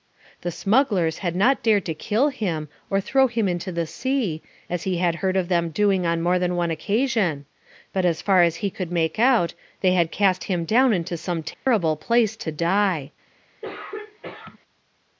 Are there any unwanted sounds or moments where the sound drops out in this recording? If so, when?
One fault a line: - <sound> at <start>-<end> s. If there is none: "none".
- dropout at 11.5-11.7 s
- throat clearing at 13.6-14.6 s